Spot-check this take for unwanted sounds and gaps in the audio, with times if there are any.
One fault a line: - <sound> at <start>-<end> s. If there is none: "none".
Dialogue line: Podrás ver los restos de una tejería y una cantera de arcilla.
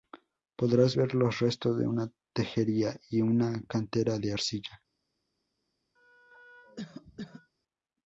- cough at 6.0-7.5 s